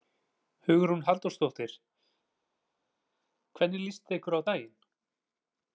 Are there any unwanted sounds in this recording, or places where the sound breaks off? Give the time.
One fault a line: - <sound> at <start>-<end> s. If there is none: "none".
none